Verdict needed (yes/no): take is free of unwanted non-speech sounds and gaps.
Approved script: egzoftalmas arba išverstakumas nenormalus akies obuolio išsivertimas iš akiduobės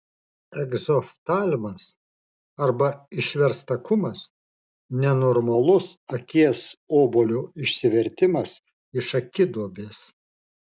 yes